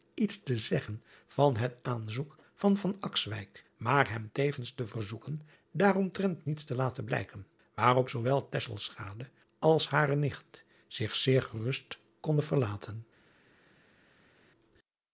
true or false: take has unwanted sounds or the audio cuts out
false